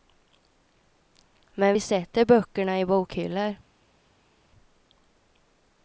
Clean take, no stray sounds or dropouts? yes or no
yes